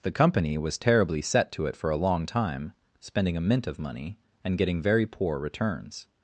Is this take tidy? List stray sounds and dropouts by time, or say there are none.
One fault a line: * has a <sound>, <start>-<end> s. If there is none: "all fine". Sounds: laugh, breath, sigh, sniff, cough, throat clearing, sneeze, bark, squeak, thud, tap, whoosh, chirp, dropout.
all fine